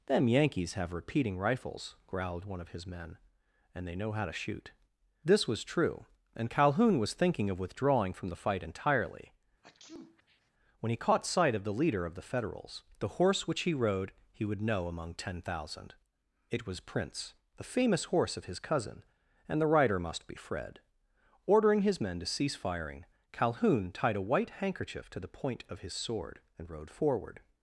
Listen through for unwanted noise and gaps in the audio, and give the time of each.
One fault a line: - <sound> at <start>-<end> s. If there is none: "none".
- sneeze at 9.6-10.5 s